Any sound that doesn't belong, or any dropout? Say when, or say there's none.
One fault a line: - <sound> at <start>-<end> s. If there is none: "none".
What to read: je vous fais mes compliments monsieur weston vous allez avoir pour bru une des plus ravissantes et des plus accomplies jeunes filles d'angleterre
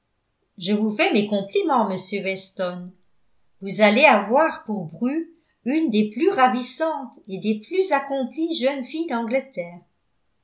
none